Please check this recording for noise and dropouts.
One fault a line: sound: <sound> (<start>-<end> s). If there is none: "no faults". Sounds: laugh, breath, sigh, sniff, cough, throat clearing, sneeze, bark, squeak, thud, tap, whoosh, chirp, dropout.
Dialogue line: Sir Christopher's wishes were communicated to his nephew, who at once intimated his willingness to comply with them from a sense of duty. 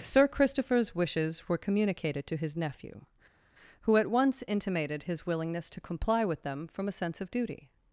no faults